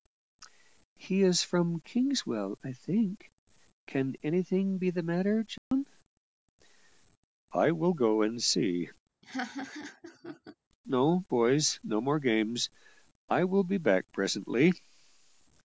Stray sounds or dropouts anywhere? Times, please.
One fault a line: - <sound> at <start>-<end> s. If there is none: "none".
- dropout at 5.6-5.7 s
- laugh at 9.2-10.6 s